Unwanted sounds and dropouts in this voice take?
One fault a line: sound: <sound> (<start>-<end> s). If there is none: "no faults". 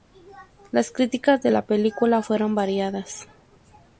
no faults